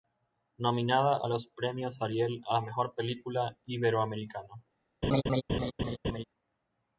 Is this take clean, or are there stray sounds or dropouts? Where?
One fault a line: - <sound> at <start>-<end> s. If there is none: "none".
- laugh at 5.0-6.2 s